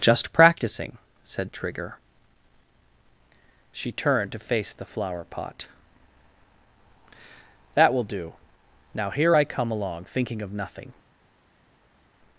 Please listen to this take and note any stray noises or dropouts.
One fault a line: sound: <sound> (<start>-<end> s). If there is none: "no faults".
no faults